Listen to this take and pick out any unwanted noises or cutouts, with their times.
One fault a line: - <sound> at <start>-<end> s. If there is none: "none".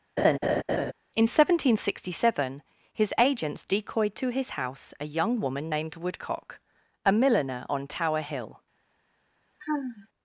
- laugh at 0.2-0.9 s
- sigh at 9.6-10.1 s